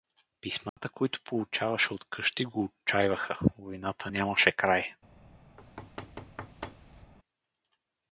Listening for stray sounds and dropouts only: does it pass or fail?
fail